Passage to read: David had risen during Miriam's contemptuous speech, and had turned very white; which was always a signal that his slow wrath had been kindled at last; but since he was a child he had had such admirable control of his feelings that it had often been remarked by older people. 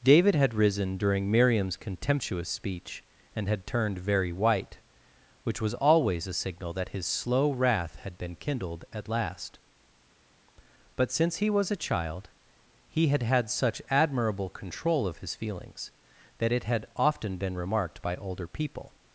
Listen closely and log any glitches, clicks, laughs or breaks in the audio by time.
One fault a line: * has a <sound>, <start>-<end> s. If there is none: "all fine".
all fine